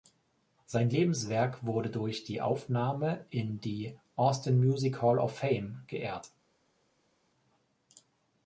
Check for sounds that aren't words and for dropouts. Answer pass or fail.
pass